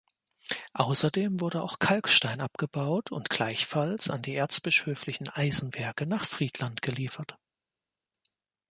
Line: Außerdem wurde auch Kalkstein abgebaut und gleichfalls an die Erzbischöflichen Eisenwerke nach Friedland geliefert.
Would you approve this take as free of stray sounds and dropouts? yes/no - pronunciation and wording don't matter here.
yes